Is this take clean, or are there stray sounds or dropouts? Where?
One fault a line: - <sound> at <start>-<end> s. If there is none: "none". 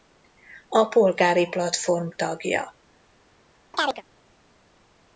- chirp at 3.7-4.0 s